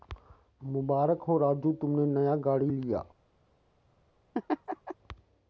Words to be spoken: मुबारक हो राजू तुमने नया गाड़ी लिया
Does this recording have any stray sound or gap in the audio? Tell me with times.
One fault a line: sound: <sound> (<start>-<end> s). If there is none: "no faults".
sound: laugh (4.3-4.9 s)